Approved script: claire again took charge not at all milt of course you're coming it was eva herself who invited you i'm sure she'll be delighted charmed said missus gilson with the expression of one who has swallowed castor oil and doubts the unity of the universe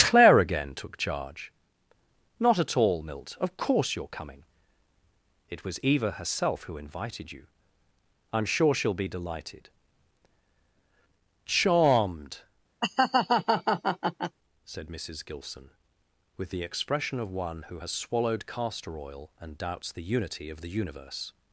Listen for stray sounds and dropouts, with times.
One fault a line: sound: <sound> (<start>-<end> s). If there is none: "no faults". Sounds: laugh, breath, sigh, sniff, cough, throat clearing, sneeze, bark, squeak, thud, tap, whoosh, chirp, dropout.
sound: laugh (12.8-14.4 s)